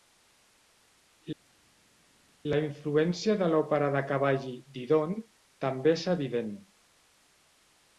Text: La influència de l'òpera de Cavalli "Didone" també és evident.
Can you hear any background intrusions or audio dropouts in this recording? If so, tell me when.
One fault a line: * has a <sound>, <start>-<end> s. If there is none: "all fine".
all fine